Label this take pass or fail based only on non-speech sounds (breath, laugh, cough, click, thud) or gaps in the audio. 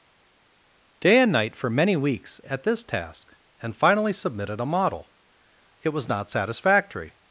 pass